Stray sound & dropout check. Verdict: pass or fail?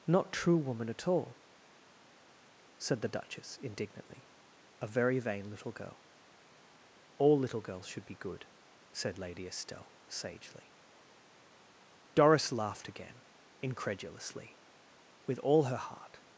pass